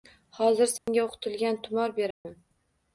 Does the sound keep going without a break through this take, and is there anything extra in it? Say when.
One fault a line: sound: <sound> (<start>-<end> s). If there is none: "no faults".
sound: dropout (0.8-0.9 s)
sound: dropout (2.1-2.3 s)